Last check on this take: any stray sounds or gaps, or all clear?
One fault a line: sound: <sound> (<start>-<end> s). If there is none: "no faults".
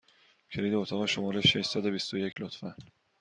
sound: dropout (2.3-2.4 s)